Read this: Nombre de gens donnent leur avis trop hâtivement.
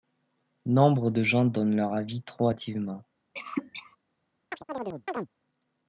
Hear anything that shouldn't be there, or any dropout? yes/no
yes